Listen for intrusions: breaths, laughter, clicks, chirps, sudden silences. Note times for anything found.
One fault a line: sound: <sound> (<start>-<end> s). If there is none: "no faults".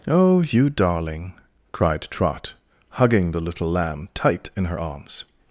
no faults